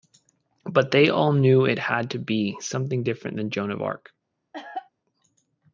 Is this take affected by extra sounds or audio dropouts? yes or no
yes